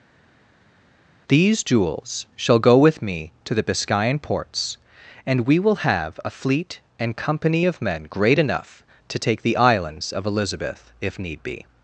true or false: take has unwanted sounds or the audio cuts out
false